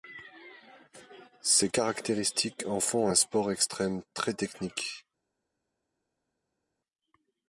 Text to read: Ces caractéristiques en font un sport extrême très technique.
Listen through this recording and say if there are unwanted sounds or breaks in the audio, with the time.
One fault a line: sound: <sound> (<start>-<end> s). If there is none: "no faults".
no faults